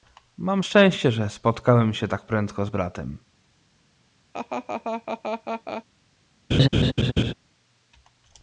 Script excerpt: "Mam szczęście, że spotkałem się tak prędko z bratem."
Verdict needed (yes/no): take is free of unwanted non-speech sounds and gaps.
no